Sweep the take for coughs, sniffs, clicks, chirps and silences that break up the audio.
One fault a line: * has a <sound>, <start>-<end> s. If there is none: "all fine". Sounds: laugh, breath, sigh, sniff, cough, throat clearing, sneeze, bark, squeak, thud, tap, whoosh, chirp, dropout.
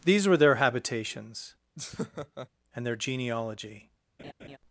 * has a laugh, 1.8-2.5 s
* has a laugh, 4.2-4.6 s